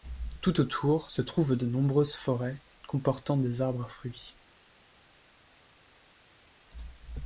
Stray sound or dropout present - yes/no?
no